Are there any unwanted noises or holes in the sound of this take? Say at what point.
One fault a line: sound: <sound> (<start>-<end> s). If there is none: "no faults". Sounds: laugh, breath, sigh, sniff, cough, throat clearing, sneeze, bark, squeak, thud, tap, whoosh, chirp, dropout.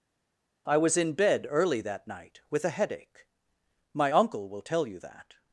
no faults